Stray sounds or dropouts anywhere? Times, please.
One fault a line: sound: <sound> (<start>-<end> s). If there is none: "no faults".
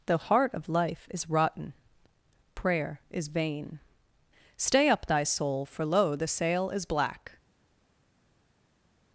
no faults